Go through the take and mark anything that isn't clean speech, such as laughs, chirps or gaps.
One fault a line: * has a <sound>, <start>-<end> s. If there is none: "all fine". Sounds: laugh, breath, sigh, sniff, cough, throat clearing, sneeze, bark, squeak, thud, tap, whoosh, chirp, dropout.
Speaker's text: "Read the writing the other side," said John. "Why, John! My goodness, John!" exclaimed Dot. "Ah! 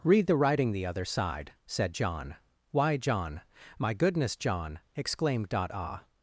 all fine